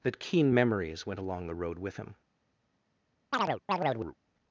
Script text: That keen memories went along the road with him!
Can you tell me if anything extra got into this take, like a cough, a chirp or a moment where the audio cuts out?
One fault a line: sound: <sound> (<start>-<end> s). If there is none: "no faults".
sound: chirp (3.3-4.2 s)